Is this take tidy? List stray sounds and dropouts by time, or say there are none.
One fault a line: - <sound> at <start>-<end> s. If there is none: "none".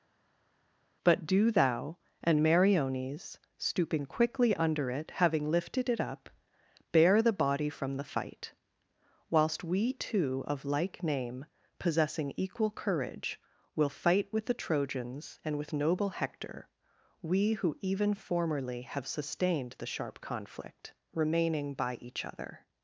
none